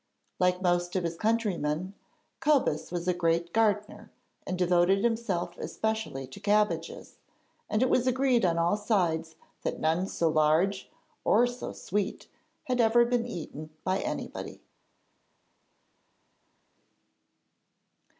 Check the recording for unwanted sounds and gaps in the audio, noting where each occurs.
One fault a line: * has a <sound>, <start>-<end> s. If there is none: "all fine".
all fine